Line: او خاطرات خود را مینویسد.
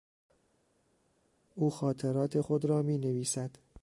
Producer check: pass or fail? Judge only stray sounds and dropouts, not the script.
pass